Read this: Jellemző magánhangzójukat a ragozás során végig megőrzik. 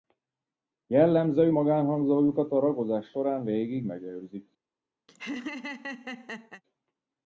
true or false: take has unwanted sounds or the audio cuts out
true